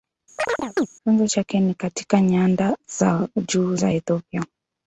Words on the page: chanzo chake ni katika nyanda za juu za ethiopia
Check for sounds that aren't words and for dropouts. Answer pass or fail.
fail